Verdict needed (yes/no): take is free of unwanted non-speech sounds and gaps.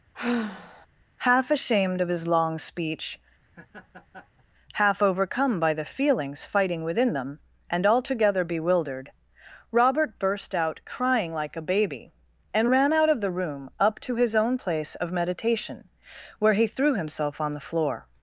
no